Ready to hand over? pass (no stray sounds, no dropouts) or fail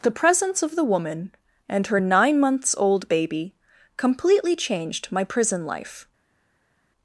pass